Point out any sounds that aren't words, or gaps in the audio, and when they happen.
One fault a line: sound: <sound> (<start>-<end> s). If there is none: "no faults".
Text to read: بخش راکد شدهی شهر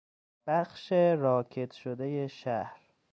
no faults